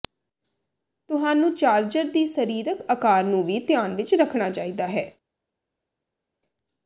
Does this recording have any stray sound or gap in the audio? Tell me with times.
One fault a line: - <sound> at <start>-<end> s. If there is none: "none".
none